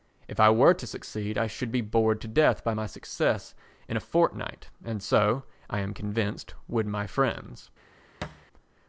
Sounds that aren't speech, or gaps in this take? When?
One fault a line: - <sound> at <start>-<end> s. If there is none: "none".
- thud at 8.2-8.5 s